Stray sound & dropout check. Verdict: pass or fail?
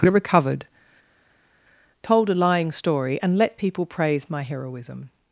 pass